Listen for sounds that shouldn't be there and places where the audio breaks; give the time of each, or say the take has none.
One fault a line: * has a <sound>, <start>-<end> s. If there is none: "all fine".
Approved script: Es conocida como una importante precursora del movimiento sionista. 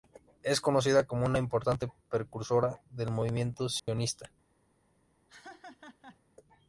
* has a dropout, 3.8-3.9 s
* has a laugh, 5.3-6.2 s